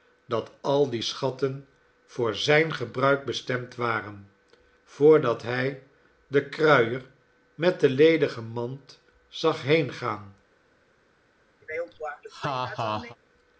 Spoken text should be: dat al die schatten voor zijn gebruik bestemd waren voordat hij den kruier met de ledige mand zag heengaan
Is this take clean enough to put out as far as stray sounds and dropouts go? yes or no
no